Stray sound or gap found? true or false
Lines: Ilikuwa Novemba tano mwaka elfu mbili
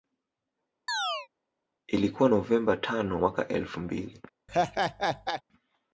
true